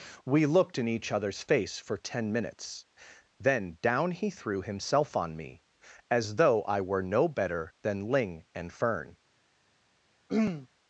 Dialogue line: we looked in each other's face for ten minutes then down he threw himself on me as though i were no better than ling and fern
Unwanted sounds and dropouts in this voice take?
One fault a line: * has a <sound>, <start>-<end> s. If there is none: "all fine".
* has a throat clearing, 10.3-10.7 s